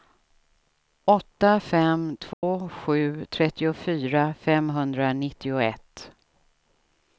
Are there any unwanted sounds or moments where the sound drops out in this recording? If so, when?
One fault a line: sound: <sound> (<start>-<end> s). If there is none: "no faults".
sound: dropout (2.3-2.4 s)